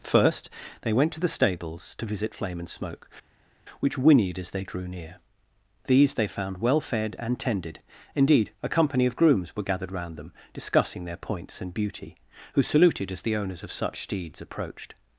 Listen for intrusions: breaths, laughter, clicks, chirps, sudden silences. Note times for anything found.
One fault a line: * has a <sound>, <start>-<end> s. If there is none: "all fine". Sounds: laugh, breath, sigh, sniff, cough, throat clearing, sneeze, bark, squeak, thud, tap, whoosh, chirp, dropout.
all fine